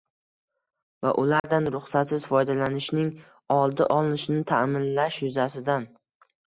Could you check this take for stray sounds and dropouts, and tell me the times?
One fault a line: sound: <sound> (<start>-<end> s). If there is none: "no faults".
sound: dropout (1.4-1.4 s)